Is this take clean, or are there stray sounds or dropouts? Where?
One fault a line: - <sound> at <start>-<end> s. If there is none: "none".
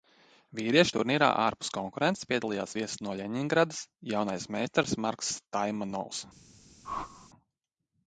- whoosh at 6.8-7.3 s